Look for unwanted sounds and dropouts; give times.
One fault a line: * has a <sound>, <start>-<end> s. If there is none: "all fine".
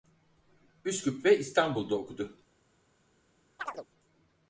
* has a chirp, 3.6-3.9 s